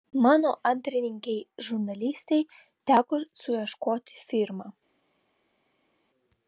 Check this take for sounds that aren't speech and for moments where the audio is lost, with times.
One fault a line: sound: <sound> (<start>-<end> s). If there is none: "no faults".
no faults